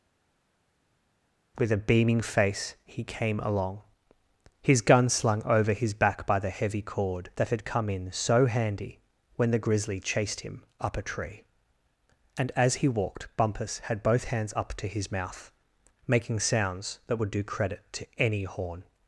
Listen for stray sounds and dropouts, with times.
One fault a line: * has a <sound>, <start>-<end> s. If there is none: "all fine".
all fine